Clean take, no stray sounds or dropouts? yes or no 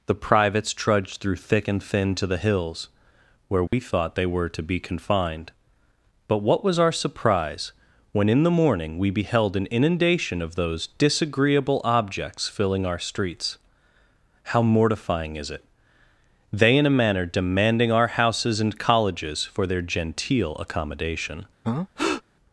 no